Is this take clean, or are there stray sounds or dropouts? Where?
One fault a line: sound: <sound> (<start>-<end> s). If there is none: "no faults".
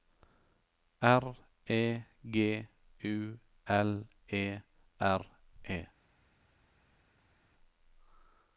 no faults